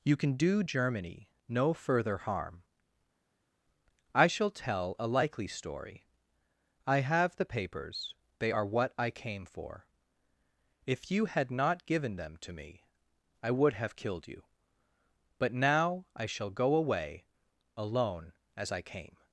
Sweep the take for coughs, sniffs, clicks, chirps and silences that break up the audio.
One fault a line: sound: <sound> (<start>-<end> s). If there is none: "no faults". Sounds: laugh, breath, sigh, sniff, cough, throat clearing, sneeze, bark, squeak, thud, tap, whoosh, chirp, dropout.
no faults